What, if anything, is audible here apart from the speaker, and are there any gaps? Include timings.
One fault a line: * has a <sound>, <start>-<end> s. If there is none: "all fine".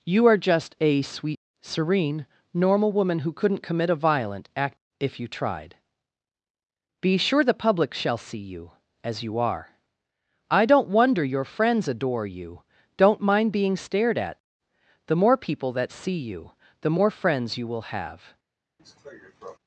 * has a cough, 18.8-19.6 s